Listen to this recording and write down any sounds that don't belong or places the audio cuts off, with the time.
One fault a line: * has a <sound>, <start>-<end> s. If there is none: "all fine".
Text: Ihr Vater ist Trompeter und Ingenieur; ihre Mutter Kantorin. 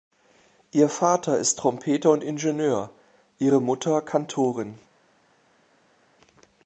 all fine